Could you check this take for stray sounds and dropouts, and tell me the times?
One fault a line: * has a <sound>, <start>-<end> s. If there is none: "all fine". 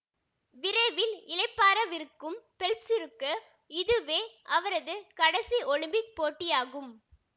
all fine